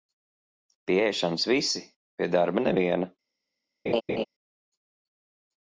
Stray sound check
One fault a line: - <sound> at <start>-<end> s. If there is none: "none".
- laugh at 3.9-4.2 s